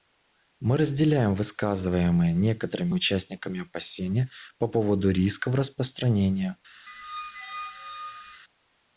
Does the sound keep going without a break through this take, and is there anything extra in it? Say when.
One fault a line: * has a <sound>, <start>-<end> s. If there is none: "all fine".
* has a squeak, 6.9-8.4 s